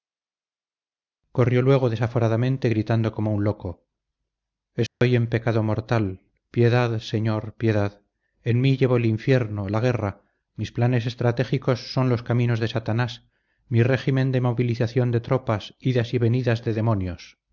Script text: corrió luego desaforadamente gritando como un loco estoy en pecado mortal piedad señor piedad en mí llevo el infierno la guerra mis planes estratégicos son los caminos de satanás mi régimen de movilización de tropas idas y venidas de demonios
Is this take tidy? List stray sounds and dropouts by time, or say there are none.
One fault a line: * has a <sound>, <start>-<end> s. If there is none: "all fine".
* has a dropout, 4.9-5.0 s